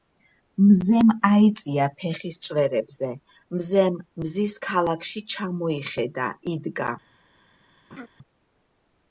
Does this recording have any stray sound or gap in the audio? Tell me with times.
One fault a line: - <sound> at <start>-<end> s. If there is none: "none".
- laugh at 7.9-8.1 s